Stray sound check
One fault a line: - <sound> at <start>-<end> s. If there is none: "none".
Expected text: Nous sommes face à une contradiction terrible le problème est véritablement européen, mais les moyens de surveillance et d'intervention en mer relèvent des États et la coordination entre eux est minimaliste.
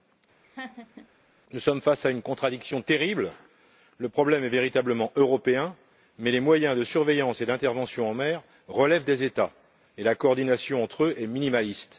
- laugh at 0.4-1.1 s